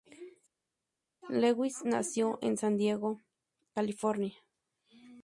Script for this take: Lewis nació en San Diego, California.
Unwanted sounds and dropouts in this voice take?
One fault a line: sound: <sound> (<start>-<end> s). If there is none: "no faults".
no faults